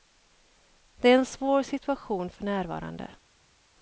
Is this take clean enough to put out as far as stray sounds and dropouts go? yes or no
yes